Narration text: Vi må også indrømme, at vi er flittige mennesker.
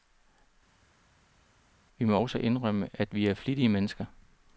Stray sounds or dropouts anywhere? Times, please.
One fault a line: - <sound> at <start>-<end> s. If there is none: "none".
none